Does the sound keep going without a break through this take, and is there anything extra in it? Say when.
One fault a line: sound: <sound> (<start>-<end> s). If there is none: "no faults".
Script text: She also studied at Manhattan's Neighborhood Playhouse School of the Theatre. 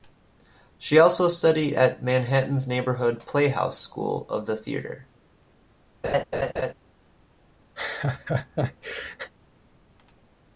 sound: laugh (6.0-6.7 s)
sound: laugh (7.8-9.3 s)